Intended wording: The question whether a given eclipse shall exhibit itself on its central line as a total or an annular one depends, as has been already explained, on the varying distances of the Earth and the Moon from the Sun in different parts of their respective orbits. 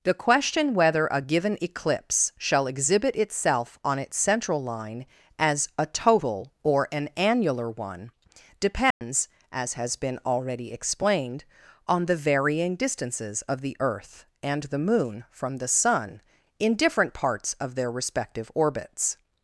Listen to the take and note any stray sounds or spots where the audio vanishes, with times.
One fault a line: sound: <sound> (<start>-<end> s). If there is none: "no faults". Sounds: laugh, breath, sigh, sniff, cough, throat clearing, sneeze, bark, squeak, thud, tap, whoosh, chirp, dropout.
sound: dropout (8.9-9.0 s)